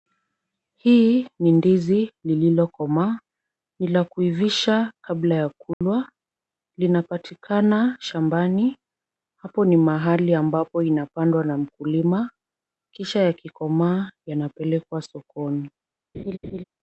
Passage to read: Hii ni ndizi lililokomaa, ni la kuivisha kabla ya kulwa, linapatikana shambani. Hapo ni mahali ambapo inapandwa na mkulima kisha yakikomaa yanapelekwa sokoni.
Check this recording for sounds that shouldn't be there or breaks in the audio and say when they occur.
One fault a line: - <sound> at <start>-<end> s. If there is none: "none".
- dropout at 5.7-5.8 s
- laugh at 16.1-16.6 s